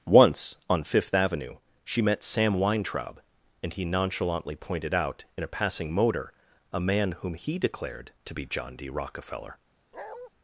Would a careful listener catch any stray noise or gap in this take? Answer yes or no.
yes